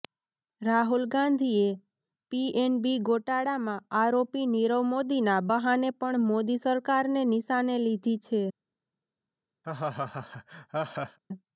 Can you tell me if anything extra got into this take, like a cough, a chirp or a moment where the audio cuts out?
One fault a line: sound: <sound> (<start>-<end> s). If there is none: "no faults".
sound: laugh (9.6-11.2 s)